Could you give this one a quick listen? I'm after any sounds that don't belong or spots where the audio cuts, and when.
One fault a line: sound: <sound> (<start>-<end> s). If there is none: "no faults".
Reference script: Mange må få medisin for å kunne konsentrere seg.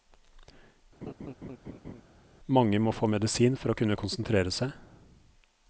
sound: laugh (1.0-2.0 s)